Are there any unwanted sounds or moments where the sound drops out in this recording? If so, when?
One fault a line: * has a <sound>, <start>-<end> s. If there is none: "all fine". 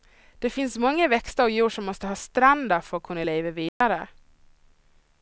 * has a dropout, 3.7-3.8 s